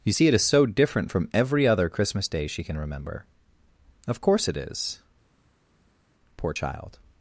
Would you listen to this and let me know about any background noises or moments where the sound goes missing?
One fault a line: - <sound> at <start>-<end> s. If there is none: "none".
none